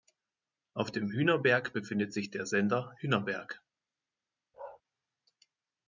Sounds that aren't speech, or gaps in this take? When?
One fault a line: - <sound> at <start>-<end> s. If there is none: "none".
- bark at 4.5-4.8 s